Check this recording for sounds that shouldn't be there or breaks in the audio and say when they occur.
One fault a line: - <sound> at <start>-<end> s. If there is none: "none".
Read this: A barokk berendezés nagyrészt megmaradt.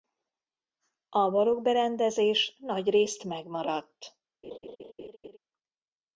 - laugh at 4.4-5.4 s